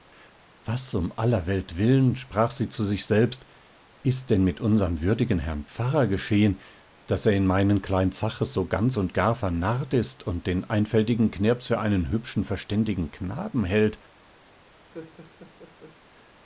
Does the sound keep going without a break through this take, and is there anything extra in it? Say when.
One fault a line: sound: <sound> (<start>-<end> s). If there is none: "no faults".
sound: laugh (14.9-16.0 s)